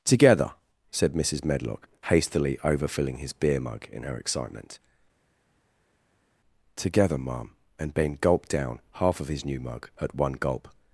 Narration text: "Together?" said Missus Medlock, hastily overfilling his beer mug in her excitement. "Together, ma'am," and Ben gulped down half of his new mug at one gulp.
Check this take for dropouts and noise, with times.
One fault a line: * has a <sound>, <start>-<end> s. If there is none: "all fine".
all fine